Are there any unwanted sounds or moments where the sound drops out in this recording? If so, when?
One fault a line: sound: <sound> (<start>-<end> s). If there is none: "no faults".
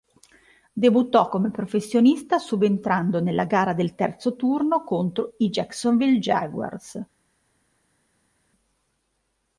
no faults